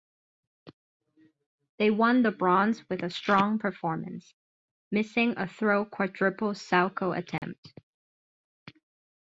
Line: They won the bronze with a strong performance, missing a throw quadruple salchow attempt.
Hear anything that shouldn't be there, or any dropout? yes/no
yes